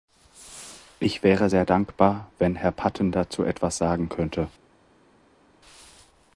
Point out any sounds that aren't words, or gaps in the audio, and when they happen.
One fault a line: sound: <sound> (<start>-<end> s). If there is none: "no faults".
no faults